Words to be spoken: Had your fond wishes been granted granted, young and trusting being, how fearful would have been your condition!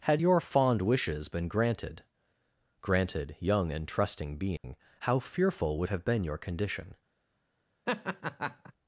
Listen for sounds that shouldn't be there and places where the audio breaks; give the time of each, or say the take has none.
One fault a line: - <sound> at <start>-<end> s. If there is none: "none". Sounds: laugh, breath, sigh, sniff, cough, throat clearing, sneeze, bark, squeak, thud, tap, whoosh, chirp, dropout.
- dropout at 4.6-4.6 s
- laugh at 7.9-8.7 s